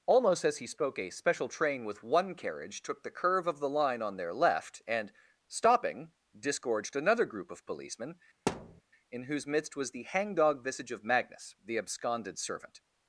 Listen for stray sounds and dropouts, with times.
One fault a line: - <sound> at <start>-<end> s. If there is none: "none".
- thud at 8.5-8.8 s